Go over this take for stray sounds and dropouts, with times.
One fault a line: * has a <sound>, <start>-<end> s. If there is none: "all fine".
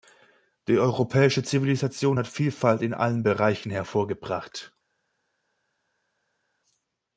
all fine